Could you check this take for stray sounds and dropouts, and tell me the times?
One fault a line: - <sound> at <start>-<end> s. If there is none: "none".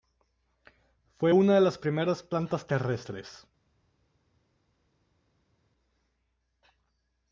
none